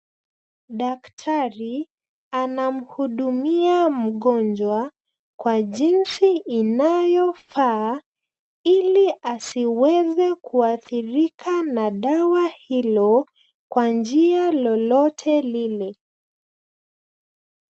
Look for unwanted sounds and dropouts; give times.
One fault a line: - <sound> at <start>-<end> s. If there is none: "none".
none